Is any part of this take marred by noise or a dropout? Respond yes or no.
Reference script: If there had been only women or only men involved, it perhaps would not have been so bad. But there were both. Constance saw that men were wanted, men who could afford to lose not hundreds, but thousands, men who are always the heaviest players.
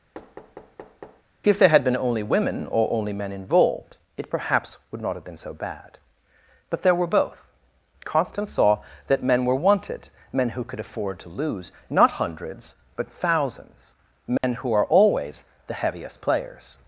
yes